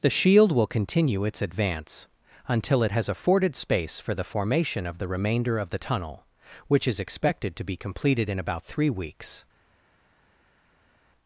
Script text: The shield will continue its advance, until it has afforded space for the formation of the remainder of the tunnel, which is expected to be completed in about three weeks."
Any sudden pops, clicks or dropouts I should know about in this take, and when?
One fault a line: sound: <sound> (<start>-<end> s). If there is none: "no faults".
no faults